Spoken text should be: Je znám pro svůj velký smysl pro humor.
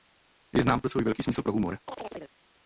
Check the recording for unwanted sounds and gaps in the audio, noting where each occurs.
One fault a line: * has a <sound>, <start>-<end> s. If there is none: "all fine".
* has a chirp, 1.9-2.4 s